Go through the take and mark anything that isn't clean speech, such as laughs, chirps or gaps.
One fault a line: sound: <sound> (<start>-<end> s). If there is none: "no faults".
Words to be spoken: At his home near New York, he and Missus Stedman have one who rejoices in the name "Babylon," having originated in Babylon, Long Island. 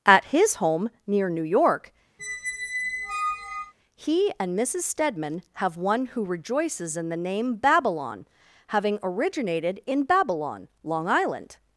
sound: squeak (2.2-3.7 s)